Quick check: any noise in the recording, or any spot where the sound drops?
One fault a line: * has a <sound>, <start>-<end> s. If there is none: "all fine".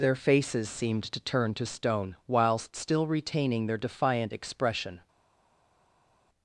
all fine